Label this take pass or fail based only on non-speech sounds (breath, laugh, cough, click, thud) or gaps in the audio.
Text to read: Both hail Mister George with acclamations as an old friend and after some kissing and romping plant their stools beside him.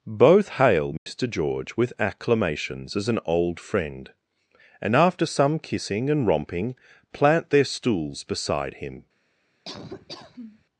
fail